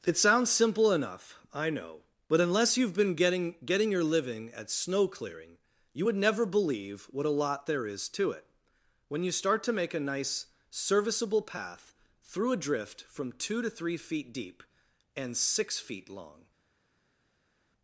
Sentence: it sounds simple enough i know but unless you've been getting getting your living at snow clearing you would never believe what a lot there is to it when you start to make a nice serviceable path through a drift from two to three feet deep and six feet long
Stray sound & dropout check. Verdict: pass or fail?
pass